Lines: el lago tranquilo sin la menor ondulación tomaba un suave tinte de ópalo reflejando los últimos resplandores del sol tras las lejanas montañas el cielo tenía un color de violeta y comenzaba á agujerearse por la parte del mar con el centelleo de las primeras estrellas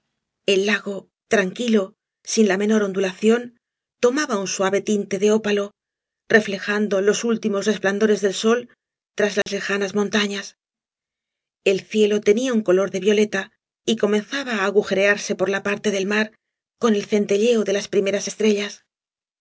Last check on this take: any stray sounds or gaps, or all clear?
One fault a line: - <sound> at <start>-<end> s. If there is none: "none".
- dropout at 9.4-9.5 s